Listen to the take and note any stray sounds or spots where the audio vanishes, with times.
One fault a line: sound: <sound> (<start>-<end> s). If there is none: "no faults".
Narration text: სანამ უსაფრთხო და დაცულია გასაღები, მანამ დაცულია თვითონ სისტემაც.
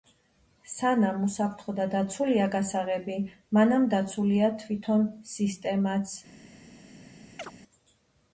sound: chirp (7.4-7.5 s)